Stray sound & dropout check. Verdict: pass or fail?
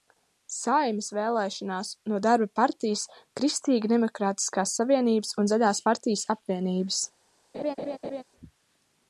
fail